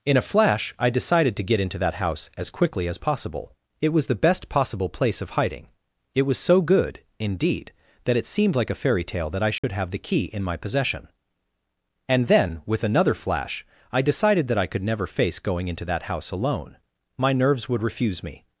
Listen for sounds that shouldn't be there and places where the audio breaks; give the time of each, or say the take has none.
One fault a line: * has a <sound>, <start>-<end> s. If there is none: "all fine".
* has a dropout, 9.6-9.6 s